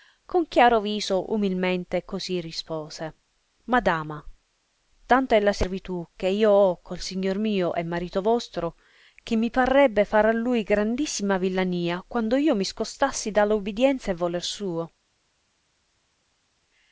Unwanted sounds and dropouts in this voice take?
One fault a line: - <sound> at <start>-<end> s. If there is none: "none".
none